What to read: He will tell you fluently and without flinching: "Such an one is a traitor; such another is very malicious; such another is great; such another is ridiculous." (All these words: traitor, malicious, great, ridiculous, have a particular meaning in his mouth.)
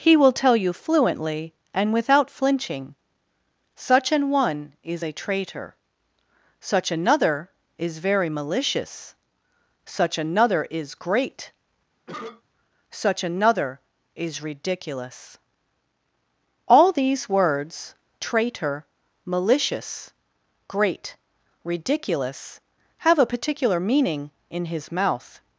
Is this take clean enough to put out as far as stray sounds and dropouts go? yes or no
no